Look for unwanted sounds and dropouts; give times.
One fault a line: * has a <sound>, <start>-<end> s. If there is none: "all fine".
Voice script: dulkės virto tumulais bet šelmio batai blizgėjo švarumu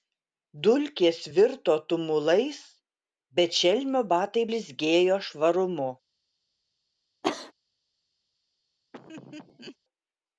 * has a cough, 7.2-7.5 s
* has a laugh, 8.9-9.8 s